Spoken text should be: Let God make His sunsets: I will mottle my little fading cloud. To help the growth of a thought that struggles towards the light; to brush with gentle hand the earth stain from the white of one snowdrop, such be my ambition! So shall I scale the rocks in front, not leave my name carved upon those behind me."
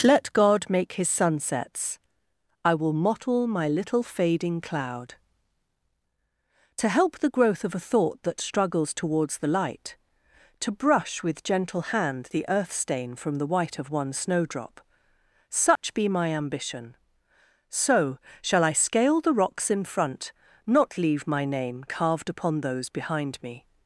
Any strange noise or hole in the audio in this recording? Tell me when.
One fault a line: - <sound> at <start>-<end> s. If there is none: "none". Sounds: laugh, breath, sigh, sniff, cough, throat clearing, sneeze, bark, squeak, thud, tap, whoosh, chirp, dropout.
- dropout at 15.8-15.8 s